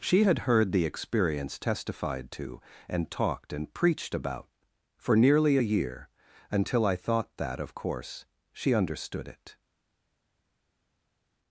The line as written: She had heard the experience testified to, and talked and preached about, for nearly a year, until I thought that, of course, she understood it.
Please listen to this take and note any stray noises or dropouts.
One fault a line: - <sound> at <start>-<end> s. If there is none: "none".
none